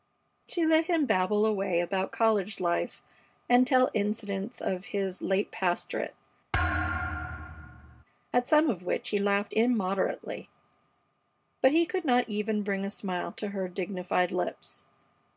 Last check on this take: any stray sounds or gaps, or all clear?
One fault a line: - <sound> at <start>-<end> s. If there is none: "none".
- thud at 6.5-8.0 s